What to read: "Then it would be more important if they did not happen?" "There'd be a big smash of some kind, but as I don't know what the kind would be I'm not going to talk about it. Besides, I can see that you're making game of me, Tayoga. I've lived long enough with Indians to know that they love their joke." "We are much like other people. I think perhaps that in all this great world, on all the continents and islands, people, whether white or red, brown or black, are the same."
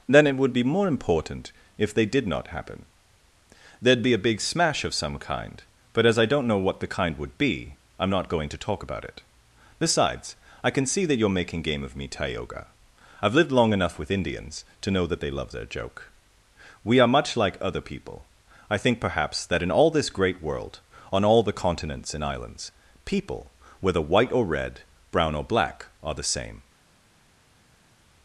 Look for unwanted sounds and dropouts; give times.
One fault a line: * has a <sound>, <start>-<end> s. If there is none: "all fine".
all fine